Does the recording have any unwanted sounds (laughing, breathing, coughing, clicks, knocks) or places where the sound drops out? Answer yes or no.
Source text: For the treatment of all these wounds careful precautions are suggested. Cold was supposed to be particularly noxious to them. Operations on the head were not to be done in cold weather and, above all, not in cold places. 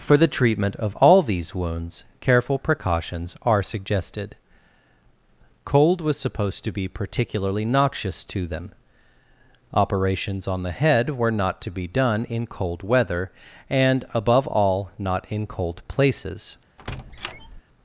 yes